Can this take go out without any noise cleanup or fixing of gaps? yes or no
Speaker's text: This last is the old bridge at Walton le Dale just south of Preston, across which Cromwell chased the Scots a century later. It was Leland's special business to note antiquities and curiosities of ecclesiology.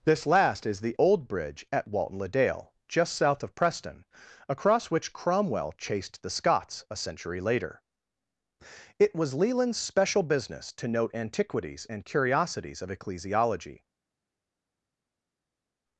yes